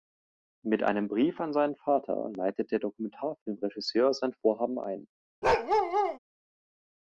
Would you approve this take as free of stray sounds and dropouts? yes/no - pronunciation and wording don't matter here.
no